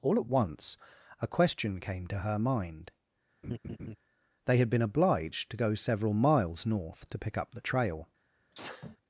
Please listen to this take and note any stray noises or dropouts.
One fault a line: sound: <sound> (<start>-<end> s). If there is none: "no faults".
sound: laugh (3.4-4.0 s)
sound: sneeze (8.5-9.0 s)